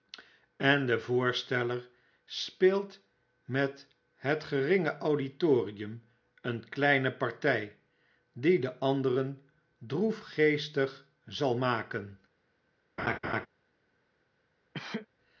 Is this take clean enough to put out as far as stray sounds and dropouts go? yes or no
no